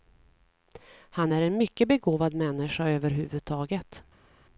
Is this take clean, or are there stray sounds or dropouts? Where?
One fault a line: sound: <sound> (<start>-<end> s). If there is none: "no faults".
no faults